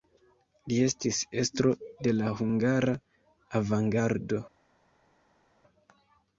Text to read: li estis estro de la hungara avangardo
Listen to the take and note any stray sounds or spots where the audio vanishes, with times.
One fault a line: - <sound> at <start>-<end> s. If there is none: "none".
none